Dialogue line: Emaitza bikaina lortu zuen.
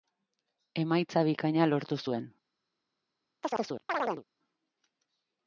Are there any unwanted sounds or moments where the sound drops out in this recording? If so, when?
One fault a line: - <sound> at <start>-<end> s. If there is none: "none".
- chirp at 3.4-4.2 s